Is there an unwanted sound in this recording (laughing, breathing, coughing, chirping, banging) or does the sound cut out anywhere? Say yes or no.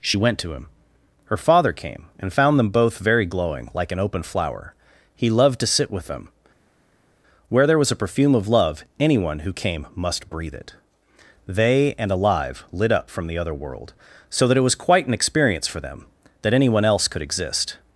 no